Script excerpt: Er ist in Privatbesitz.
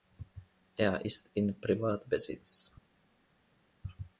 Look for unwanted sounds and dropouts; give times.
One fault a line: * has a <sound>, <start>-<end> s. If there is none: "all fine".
all fine